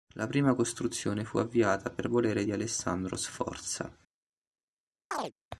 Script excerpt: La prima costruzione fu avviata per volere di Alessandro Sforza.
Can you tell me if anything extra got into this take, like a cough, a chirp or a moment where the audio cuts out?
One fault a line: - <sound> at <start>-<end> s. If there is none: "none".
- chirp at 5.1-5.3 s